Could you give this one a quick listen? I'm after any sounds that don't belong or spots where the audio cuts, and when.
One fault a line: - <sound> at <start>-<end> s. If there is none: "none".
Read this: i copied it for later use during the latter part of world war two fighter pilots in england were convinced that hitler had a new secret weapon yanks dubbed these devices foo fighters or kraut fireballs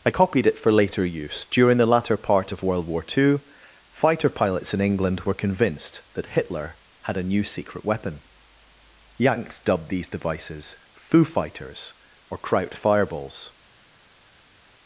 none